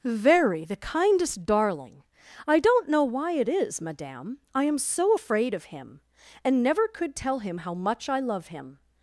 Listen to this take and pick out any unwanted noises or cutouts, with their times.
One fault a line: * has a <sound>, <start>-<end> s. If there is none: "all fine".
all fine